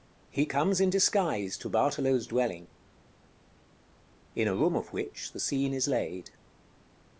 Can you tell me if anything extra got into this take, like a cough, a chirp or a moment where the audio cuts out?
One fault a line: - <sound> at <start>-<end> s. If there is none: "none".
none